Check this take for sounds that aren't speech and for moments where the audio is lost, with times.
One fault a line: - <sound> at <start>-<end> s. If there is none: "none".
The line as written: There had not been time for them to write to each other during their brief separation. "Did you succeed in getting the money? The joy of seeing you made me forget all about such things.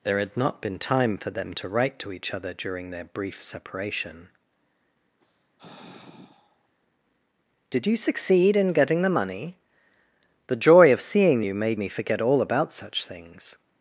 - sigh at 5.2-6.7 s